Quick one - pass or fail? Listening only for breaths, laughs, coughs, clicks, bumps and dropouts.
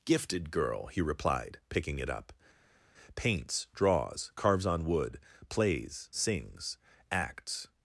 pass